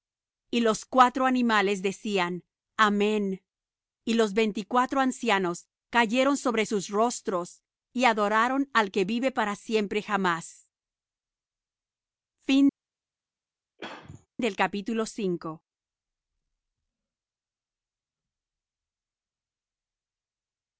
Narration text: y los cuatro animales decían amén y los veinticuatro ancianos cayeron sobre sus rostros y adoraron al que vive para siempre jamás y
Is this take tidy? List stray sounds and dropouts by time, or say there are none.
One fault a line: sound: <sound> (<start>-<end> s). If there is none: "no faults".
sound: throat clearing (13.8-14.3 s)